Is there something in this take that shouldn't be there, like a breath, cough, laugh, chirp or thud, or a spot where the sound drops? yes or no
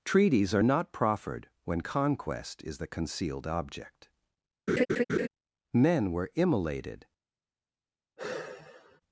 yes